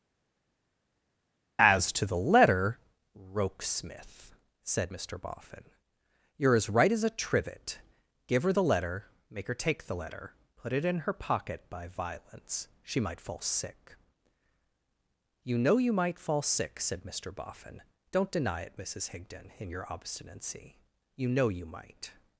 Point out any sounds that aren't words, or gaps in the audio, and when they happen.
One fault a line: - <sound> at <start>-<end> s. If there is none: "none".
none